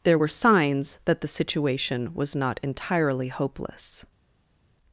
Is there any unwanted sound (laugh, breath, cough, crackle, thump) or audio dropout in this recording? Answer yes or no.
no